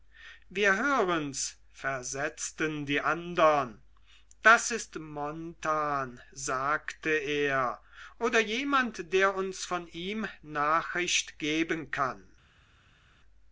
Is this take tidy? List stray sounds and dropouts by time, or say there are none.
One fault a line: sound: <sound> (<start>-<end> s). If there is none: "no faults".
no faults